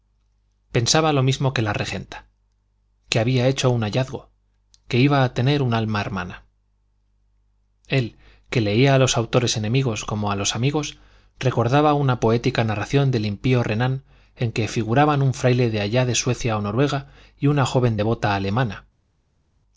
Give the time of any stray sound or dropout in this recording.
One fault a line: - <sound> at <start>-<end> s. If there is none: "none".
none